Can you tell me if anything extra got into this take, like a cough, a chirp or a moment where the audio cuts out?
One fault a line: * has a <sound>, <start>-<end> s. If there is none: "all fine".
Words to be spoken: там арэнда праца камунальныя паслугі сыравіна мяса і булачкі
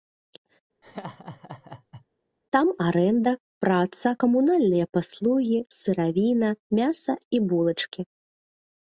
* has a laugh, 0.8-2.0 s